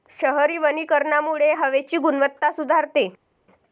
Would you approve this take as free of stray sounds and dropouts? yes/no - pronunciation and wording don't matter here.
yes